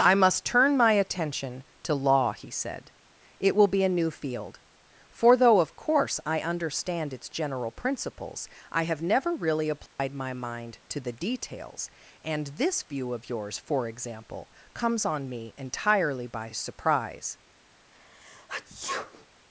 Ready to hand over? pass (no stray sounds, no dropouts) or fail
fail